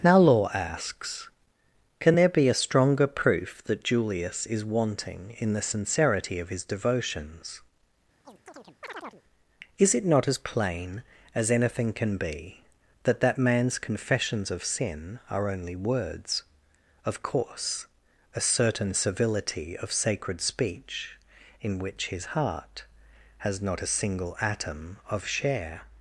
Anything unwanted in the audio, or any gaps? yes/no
yes